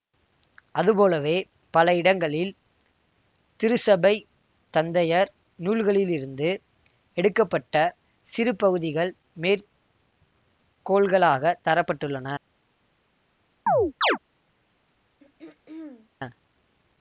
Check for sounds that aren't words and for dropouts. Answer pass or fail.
fail